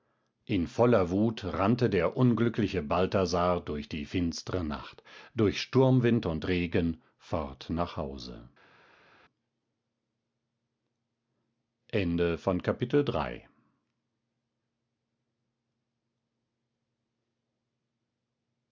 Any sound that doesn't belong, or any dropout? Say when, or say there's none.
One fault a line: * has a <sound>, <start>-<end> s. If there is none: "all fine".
all fine